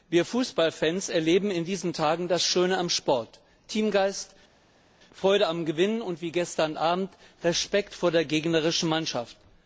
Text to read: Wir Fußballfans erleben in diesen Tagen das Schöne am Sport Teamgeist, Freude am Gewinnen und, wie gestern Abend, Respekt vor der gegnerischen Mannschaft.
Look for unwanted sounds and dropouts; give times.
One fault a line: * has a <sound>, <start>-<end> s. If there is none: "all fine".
all fine